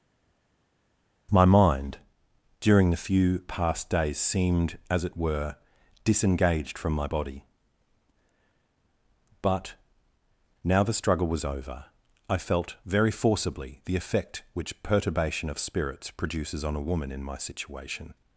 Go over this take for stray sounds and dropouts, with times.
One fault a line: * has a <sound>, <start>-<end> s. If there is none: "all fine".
all fine